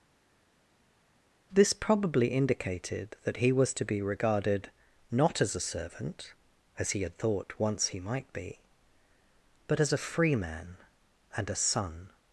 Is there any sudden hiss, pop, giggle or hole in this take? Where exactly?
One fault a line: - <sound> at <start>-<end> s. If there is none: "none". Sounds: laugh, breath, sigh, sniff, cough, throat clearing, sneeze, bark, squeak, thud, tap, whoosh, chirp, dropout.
none